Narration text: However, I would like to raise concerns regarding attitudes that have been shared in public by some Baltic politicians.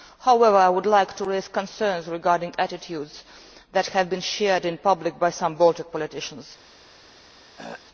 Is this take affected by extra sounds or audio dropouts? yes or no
yes